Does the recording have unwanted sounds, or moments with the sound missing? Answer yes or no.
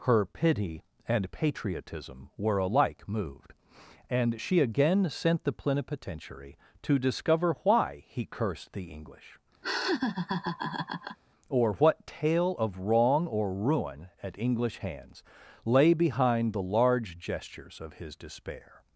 yes